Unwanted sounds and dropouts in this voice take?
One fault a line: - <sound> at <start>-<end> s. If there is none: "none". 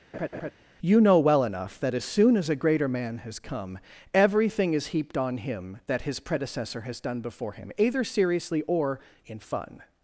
- laugh at 0.1-0.5 s